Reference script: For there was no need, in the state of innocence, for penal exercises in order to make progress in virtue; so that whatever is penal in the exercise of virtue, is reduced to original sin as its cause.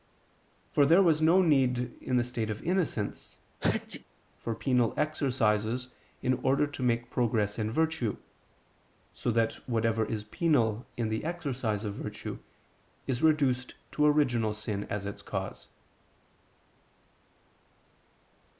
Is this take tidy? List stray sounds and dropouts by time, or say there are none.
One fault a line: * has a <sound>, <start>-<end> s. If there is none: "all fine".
* has a sneeze, 3.6-4.0 s